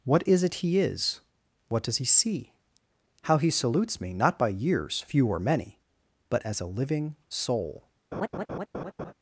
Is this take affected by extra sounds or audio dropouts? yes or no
yes